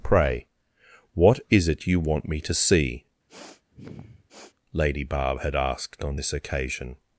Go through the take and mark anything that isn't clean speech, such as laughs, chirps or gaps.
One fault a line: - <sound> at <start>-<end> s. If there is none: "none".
- sniff at 3.3-4.6 s